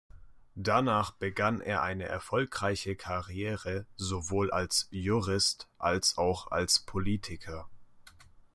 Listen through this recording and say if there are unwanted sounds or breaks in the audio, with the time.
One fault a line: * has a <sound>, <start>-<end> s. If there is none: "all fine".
all fine